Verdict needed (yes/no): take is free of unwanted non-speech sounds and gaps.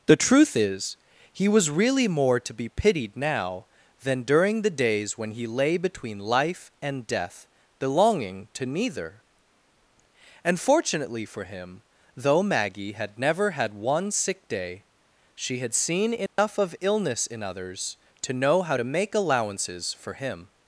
no